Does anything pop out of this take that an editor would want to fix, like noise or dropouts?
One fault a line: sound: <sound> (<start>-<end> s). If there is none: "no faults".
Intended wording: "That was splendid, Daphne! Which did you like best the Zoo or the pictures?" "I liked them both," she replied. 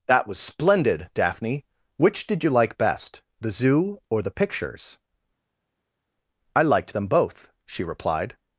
no faults